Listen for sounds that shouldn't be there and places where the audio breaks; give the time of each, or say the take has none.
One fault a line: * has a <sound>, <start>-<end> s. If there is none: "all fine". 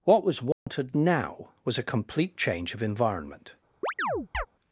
* has a dropout, 0.5-0.7 s
* has a chirp, 3.8-4.5 s